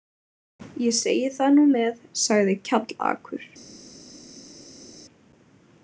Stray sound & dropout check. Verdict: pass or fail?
pass